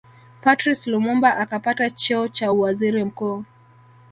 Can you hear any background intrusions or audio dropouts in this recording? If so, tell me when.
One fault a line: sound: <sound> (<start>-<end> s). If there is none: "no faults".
no faults